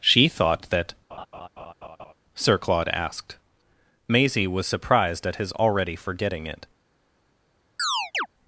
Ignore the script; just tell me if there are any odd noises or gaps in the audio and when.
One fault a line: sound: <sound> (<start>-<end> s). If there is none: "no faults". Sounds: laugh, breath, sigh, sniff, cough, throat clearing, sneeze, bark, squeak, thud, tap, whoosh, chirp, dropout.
sound: laugh (1.1-2.1 s)
sound: chirp (7.8-8.3 s)